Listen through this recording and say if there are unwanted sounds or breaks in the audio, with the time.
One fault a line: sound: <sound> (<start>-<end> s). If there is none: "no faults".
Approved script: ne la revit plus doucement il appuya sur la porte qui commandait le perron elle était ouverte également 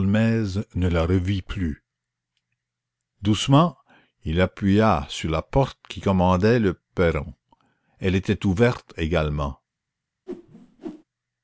sound: whoosh (10.3-11.0 s)